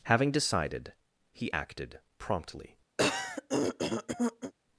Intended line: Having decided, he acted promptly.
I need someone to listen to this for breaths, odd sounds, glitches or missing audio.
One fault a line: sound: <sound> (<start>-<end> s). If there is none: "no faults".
sound: throat clearing (3.0-4.5 s)